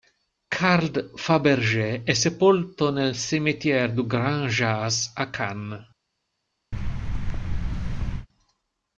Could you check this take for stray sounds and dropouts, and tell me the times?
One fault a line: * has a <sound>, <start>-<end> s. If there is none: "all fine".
* has a thud, 6.7-8.3 s